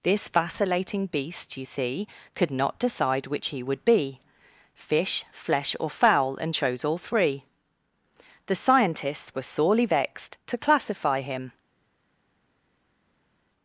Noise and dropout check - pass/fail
pass